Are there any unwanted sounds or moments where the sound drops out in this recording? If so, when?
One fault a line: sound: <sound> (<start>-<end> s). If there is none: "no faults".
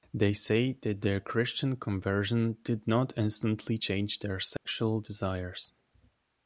sound: dropout (4.6-4.7 s)